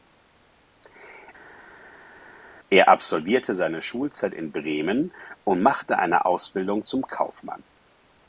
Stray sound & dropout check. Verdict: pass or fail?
pass